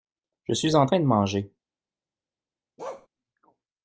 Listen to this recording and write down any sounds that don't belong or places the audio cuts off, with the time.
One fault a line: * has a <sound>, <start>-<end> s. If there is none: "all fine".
* has a bark, 2.8-3.1 s